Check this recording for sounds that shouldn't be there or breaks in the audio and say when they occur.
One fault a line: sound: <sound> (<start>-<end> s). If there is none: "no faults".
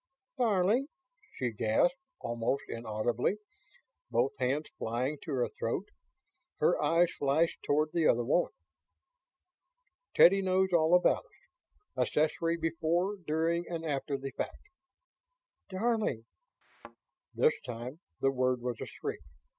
sound: thud (16.6-17.0 s)